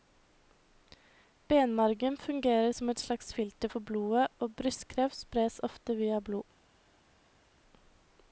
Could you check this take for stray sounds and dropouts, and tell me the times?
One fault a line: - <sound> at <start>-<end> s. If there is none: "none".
none